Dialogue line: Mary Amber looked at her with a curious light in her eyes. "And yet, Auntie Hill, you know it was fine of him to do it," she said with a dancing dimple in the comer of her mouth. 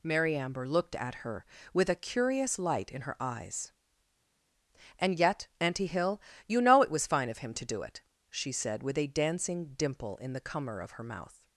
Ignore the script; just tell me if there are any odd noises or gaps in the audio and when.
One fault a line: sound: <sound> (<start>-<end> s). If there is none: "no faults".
no faults